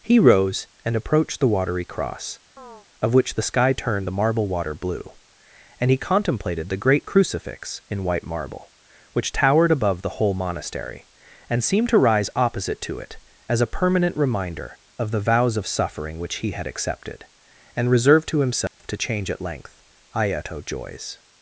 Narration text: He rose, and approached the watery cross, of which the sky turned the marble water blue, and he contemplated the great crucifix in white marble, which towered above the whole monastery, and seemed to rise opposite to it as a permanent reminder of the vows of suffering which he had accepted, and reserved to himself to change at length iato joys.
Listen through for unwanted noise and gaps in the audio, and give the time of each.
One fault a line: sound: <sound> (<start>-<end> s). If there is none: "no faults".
sound: chirp (2.6-2.9 s)
sound: dropout (18.7-18.8 s)